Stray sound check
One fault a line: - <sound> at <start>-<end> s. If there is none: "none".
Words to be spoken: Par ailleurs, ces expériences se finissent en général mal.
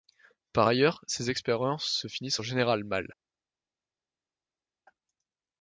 none